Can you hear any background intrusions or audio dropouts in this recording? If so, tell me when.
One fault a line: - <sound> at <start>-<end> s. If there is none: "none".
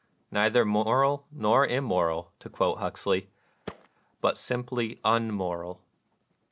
- thud at 3.7-3.9 s